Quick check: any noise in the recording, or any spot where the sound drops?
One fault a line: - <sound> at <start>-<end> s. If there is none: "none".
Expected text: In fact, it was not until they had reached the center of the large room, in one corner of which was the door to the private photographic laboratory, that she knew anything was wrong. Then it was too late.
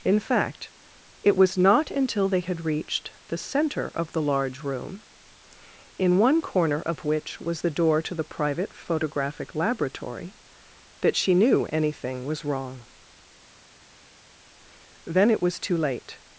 none